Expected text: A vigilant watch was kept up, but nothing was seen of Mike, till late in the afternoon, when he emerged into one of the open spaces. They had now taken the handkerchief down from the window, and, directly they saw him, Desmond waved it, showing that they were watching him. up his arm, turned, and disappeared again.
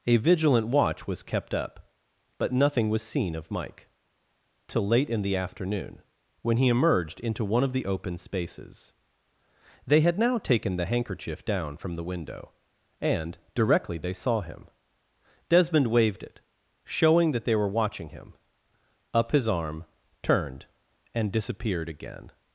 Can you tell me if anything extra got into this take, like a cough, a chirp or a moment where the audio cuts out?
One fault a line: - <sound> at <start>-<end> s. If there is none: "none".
none